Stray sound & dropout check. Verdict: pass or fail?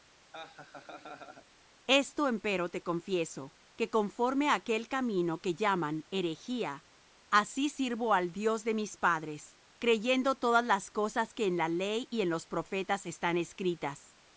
fail